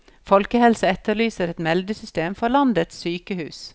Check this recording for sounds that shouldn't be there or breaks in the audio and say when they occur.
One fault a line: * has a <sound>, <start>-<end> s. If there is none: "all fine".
all fine